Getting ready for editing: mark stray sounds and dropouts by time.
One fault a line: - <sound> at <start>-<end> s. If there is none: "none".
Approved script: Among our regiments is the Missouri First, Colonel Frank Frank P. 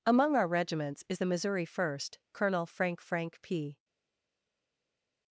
none